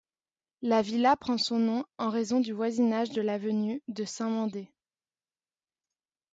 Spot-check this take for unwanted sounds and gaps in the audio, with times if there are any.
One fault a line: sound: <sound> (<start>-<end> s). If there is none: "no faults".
no faults